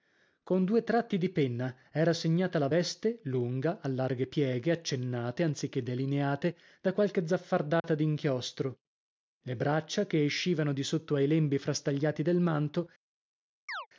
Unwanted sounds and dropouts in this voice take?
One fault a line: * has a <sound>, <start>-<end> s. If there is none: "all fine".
* has a dropout, 7.8-7.8 s
* has a chirp, 13.7-13.9 s